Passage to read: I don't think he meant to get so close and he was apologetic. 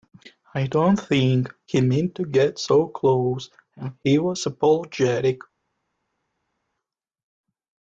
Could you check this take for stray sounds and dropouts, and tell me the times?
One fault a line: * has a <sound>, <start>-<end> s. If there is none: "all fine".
all fine